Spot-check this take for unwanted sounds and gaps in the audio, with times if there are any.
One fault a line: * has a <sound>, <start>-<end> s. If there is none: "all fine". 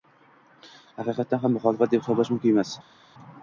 all fine